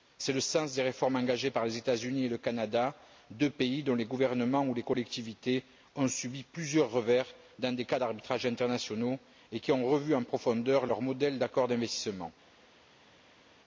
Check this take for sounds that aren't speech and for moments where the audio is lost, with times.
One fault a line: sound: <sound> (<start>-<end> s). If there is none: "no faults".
no faults